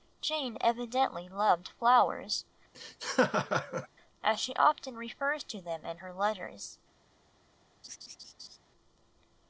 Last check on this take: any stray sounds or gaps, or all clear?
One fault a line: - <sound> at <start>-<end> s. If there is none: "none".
- laugh at 2.7-3.9 s
- laugh at 7.8-8.6 s